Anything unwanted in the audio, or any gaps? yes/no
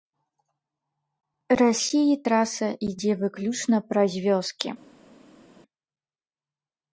no